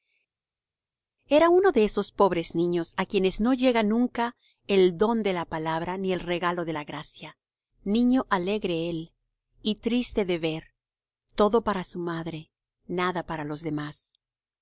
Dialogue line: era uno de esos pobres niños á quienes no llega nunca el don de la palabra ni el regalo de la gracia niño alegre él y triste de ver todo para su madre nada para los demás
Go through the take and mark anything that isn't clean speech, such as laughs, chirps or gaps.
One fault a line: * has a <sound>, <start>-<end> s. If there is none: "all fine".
all fine